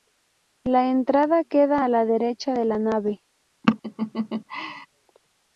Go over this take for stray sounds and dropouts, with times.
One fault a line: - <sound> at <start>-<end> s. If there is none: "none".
- laugh at 3.6-4.9 s